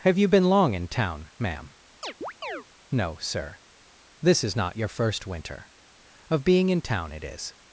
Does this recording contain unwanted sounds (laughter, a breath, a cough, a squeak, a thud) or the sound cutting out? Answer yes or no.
yes